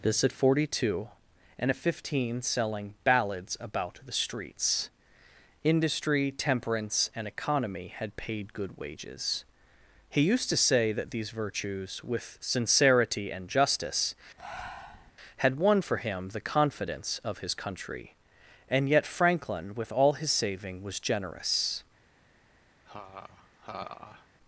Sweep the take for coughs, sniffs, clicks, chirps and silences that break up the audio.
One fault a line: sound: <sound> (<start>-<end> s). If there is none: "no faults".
sound: breath (14.4-15.1 s)
sound: laugh (22.9-24.3 s)